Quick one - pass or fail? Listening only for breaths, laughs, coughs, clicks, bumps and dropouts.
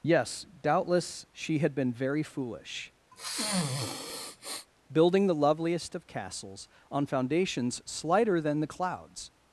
fail